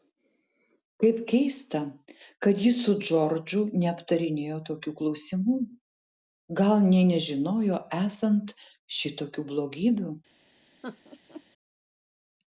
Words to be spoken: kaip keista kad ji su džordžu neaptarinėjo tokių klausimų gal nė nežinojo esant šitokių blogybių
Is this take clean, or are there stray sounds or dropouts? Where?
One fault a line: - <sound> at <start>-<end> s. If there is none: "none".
- laugh at 10.8-11.4 s